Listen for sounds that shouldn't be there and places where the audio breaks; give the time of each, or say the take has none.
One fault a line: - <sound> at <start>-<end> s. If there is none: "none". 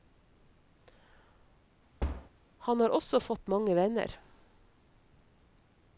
- thud at 2.0-2.3 s